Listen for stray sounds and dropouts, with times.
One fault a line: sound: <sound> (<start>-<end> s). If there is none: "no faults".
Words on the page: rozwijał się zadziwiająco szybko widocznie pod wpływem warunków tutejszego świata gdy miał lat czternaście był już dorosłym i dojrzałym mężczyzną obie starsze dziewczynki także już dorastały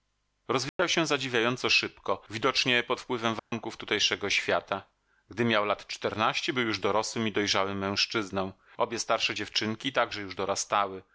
sound: dropout (0.7-0.8 s)
sound: dropout (3.4-3.5 s)